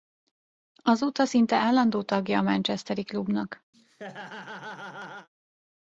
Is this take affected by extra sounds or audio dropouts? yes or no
yes